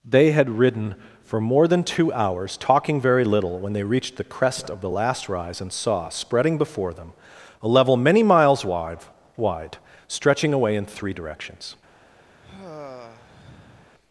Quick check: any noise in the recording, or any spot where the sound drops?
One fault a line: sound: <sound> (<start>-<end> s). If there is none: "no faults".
sound: sigh (12.4-13.9 s)